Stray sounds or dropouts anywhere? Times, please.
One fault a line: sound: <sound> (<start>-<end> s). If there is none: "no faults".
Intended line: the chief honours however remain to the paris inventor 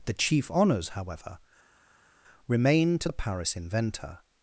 no faults